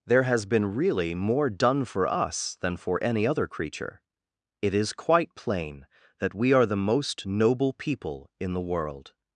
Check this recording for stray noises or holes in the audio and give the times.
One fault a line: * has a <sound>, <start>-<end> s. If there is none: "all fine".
all fine